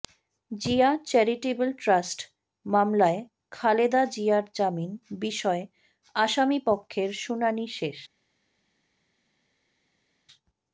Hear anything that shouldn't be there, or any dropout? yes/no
no